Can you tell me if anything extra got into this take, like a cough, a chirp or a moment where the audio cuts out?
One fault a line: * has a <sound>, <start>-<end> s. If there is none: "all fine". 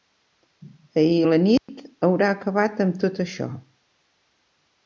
* has a dropout, 1.6-1.7 s